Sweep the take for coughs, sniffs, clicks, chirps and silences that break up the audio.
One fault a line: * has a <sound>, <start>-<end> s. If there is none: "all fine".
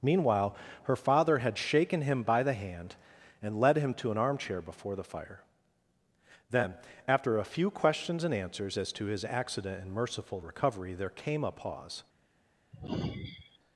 * has a sigh, 12.7-13.6 s